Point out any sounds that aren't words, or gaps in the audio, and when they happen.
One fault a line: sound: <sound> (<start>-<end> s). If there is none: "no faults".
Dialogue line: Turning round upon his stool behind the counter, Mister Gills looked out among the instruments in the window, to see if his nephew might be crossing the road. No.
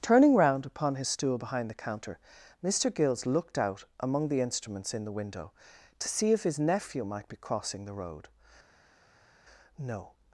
no faults